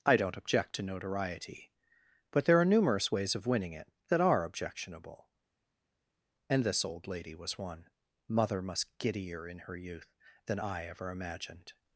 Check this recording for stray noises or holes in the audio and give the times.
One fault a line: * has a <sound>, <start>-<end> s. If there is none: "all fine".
all fine